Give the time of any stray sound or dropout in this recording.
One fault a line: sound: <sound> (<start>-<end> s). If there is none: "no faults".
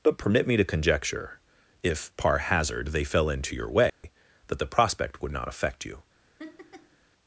sound: dropout (3.9-4.0 s)
sound: laugh (6.4-7.0 s)